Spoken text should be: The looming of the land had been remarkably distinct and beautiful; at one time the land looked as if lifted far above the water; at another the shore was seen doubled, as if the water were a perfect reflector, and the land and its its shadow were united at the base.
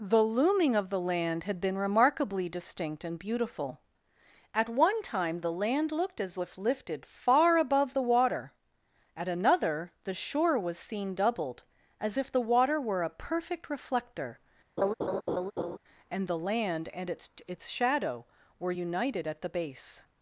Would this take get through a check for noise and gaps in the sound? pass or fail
fail